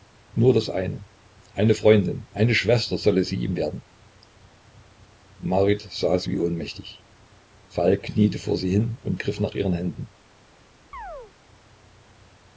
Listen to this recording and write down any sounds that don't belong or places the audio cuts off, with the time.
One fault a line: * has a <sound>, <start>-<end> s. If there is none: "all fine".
* has a chirp, 10.9-11.3 s